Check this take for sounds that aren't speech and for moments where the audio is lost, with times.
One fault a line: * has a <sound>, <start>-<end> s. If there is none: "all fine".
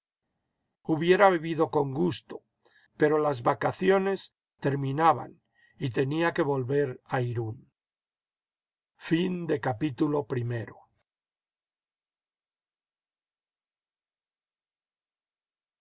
all fine